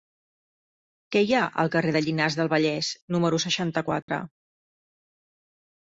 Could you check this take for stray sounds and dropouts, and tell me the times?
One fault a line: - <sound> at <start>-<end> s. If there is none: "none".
- dropout at 4.0-4.1 s